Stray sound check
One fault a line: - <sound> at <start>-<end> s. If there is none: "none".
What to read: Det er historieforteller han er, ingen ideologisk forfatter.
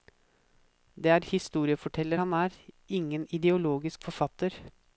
none